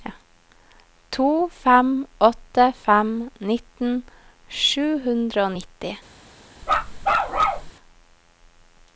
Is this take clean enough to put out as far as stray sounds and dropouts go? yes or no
no